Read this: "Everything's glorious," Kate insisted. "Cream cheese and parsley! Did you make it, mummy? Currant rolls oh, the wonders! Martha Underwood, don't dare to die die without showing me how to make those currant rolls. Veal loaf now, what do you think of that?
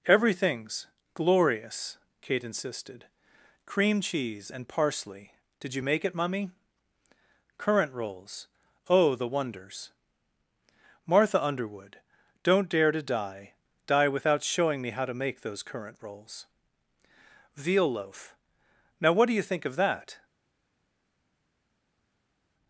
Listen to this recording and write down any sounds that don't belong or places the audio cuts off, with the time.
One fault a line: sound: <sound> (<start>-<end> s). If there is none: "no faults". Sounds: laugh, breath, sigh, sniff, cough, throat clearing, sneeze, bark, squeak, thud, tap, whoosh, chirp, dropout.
no faults